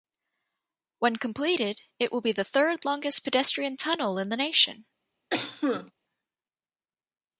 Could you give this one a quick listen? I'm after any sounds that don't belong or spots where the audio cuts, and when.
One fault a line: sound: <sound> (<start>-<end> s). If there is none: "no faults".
sound: cough (5.3-5.9 s)